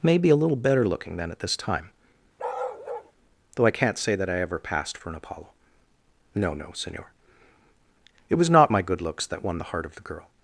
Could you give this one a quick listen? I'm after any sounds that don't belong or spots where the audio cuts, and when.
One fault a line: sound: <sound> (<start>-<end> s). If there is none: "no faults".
sound: bark (2.4-3.1 s)